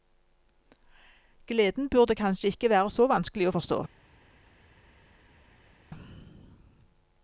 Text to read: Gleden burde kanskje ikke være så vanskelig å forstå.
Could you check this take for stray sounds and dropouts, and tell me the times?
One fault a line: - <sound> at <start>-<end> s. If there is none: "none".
none